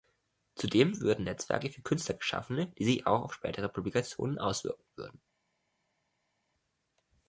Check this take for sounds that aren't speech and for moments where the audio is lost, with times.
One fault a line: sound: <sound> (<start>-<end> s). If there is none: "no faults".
no faults